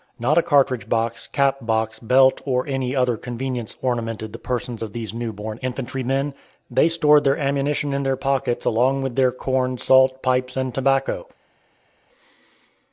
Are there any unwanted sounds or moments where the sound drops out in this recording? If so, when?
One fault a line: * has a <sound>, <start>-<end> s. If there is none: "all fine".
all fine